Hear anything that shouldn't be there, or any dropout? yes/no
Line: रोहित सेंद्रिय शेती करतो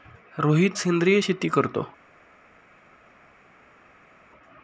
no